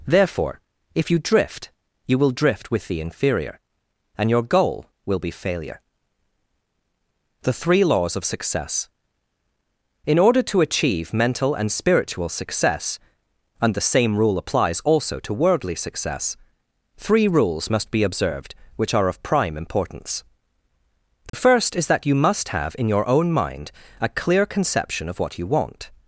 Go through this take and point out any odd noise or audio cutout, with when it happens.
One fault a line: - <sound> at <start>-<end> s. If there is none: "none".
- dropout at 21.3-21.3 s